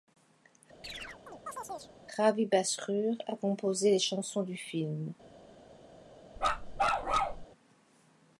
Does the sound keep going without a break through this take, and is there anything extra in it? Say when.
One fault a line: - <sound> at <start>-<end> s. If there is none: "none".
- chirp at 0.8-2.0 s
- bark at 6.4-7.5 s